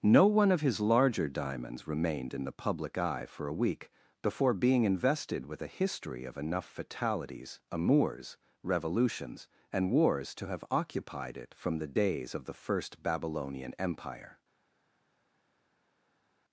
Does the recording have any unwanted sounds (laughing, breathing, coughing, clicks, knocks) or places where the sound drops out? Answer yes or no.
no